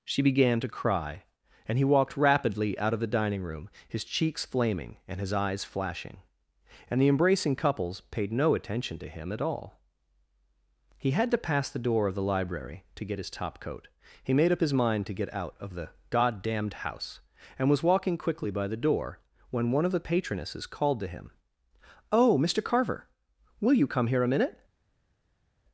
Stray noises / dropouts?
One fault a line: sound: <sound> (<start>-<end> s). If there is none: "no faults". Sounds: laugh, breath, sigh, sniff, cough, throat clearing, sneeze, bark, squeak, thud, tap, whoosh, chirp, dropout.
no faults